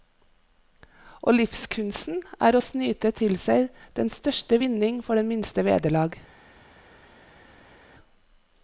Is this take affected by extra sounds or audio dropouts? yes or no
no